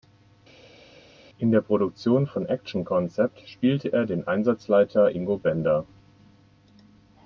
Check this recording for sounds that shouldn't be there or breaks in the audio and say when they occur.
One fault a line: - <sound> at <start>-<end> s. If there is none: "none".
none